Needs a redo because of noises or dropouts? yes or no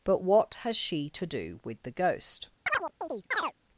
yes